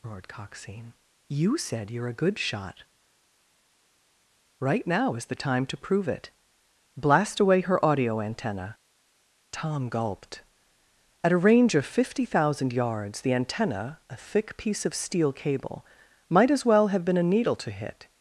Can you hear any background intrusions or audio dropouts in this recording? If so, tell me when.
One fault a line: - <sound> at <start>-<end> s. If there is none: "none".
none